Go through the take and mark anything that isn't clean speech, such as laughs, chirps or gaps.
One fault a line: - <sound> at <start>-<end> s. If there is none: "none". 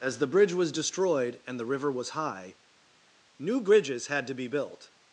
none